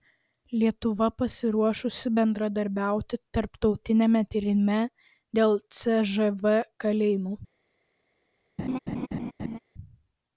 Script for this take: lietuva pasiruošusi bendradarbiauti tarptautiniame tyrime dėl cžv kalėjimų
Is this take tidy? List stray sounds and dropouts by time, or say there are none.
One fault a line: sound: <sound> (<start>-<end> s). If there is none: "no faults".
sound: laugh (8.6-9.6 s)